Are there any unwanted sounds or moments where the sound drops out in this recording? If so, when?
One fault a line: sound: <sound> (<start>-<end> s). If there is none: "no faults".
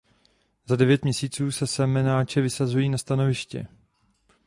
no faults